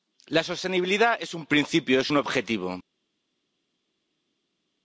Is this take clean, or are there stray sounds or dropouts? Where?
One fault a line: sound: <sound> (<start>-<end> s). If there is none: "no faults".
no faults